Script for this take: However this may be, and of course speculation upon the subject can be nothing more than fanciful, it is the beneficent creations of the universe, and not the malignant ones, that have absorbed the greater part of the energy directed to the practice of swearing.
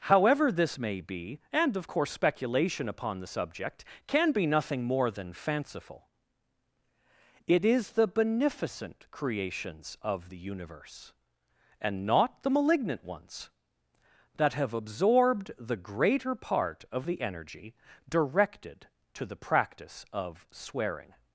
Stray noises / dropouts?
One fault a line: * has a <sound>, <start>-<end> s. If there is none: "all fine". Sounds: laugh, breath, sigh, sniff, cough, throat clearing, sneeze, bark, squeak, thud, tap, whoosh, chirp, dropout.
all fine